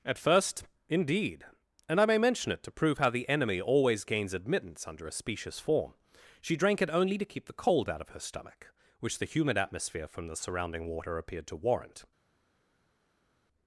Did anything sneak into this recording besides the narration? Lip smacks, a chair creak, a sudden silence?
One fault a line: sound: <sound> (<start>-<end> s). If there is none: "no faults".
no faults